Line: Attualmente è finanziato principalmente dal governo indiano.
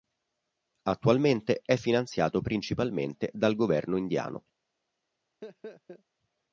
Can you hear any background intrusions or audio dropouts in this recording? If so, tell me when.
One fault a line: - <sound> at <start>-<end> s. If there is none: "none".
- laugh at 5.4-6.0 s